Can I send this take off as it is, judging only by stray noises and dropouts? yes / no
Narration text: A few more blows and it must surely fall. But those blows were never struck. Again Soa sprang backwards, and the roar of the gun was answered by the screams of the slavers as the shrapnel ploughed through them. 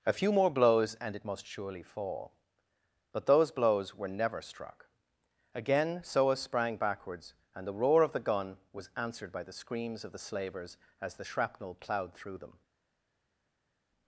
yes